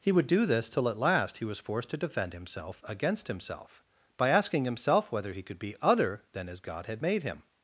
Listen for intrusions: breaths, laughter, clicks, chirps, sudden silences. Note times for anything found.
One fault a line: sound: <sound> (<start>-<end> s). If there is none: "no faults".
no faults